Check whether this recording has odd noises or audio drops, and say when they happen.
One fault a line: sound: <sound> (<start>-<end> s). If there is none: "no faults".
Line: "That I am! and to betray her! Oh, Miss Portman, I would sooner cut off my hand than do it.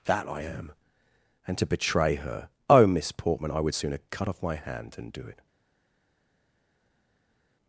no faults